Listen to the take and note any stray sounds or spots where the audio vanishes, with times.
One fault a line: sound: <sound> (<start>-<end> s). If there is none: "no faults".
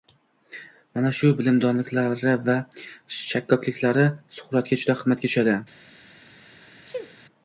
sound: sneeze (6.8-7.1 s)